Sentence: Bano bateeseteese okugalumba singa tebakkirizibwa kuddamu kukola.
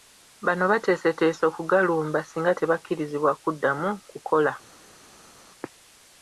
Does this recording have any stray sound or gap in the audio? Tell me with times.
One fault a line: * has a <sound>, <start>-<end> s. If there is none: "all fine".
all fine